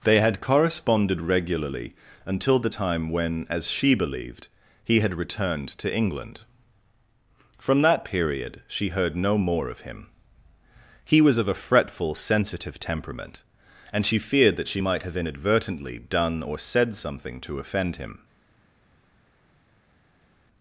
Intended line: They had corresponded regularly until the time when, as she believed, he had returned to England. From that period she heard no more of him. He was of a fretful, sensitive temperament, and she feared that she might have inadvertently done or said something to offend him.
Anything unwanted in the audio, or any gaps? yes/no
no